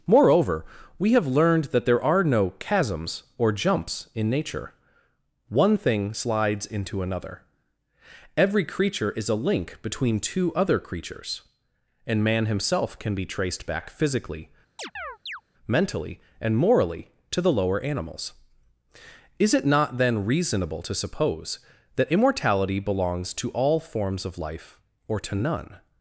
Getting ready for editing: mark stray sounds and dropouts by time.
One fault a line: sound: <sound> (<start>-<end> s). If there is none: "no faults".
sound: chirp (14.8-15.4 s)